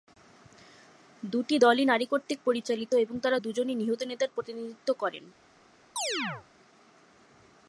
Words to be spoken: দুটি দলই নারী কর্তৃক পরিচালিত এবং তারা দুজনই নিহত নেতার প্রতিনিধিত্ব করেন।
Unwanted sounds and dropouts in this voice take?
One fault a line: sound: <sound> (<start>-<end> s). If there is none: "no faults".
sound: chirp (6.0-6.5 s)